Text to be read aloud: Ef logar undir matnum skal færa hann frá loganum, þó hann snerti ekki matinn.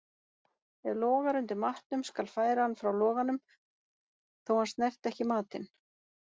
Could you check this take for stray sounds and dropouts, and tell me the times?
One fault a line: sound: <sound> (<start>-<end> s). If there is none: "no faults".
no faults